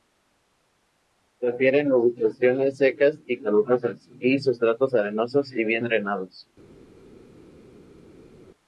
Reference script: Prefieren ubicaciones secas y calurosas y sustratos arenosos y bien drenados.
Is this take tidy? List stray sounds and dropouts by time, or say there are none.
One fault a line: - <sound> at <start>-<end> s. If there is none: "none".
none